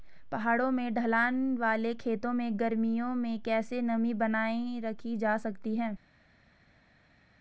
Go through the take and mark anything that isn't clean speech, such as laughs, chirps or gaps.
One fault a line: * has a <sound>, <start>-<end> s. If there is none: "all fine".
all fine